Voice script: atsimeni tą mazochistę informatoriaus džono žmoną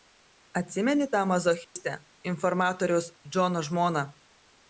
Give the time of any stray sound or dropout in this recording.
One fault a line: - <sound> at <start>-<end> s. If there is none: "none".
- dropout at 1.6-1.8 s